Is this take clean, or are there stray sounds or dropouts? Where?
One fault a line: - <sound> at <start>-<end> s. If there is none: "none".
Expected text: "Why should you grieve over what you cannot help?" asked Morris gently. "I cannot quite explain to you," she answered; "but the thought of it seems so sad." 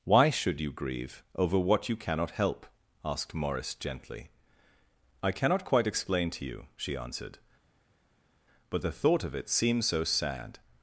none